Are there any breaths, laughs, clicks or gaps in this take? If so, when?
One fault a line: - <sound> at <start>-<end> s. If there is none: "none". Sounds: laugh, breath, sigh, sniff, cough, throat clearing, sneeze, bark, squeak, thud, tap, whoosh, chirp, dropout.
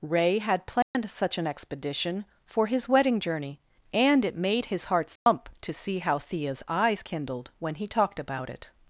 - dropout at 0.8-0.9 s
- dropout at 5.2-5.3 s